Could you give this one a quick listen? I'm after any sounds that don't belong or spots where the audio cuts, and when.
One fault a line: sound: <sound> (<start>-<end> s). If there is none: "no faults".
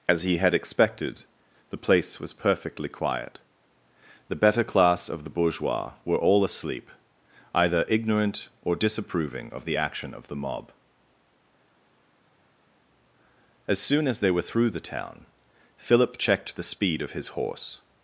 no faults